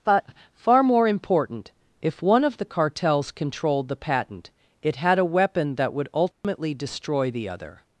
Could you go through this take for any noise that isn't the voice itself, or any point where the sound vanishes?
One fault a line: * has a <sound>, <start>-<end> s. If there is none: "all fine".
* has a dropout, 6.3-6.4 s